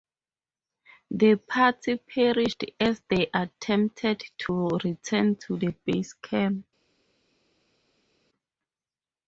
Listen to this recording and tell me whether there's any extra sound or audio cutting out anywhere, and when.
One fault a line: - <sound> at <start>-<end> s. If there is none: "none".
none